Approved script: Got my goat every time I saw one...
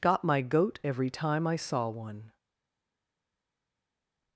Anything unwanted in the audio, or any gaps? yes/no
no